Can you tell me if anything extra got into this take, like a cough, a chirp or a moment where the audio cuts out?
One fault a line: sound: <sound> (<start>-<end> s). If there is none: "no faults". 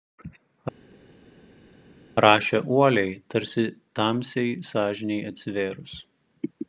no faults